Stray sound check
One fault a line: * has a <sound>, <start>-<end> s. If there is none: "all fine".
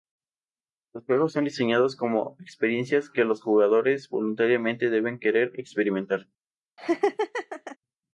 * has a laugh, 6.8-7.8 s